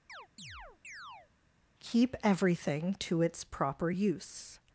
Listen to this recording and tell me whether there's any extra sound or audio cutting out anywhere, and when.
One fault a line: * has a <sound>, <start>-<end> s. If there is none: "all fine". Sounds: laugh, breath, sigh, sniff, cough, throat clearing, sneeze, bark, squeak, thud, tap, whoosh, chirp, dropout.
* has a chirp, 0.1-1.3 s